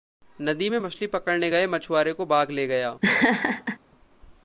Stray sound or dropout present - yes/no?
yes